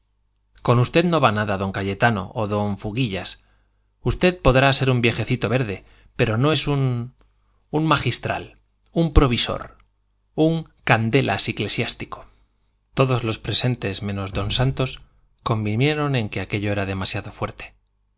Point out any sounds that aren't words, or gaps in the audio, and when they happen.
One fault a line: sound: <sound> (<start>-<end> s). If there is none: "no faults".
no faults